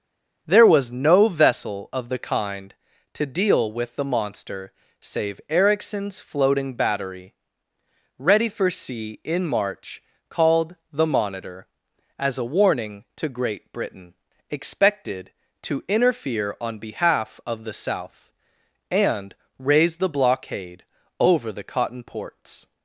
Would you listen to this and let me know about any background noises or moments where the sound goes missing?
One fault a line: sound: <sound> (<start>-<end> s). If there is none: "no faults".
no faults